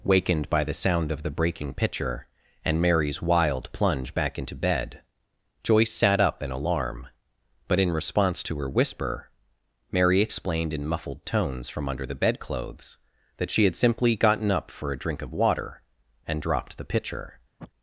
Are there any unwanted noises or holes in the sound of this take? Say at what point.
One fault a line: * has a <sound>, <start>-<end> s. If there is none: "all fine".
* has a sniff, 17.6-17.7 s